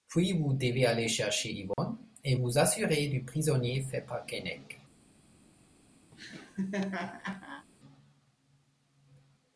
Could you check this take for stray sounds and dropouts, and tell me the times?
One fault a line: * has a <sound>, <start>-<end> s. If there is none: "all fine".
* has a dropout, 1.7-1.8 s
* has a laugh, 6.1-7.7 s